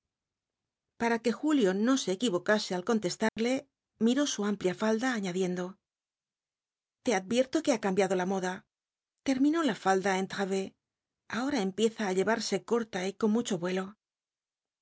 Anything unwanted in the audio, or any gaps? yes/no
yes